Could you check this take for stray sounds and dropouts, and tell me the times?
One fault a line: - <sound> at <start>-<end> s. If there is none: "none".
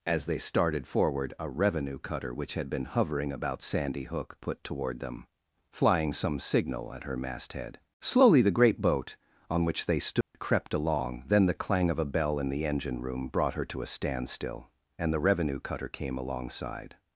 - dropout at 10.2-10.3 s